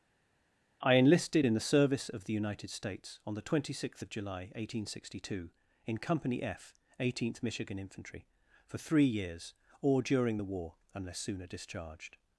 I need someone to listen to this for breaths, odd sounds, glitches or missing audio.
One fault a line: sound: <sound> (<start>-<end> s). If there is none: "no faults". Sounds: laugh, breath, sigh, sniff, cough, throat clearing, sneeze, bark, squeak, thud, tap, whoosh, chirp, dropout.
no faults